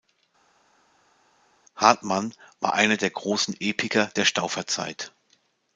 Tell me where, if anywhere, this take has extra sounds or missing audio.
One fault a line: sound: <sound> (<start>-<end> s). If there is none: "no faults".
no faults